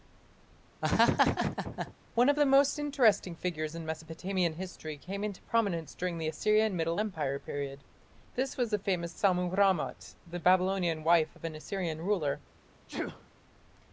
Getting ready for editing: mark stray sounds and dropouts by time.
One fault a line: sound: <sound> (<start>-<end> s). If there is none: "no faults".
sound: laugh (0.8-1.9 s)
sound: sneeze (12.9-13.3 s)